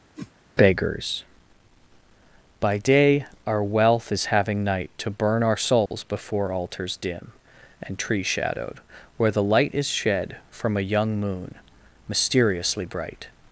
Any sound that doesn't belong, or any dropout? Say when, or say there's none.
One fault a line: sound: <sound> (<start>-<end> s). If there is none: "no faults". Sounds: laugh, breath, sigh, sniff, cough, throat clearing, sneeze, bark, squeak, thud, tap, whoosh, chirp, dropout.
sound: whoosh (0.2-0.3 s)
sound: dropout (5.9-5.9 s)